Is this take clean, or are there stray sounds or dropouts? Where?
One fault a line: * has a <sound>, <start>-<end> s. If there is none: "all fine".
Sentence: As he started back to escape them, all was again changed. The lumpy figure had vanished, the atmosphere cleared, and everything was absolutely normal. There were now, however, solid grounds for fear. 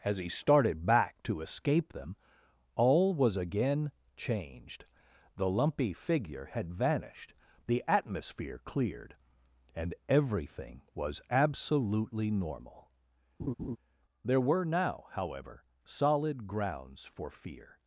* has a laugh, 13.4-13.8 s